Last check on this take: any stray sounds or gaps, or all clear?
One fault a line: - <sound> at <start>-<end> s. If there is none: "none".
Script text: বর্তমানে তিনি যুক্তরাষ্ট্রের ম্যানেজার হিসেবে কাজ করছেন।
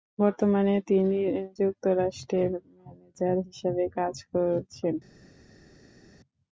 none